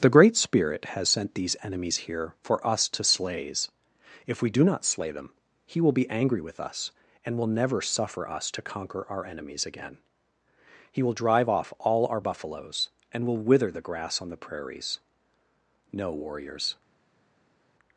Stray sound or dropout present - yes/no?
no